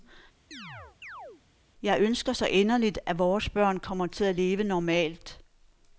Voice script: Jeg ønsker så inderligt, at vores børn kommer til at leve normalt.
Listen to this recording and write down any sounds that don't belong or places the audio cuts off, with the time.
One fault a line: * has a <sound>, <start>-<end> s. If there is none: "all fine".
* has a chirp, 0.5-1.4 s